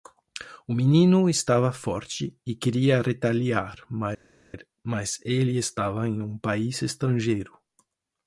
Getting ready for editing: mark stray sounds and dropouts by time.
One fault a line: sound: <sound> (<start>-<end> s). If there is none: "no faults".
no faults